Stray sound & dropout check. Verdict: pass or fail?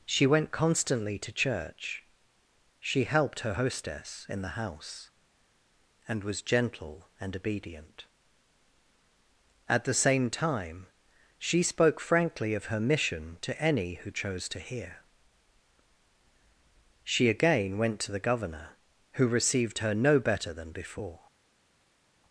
pass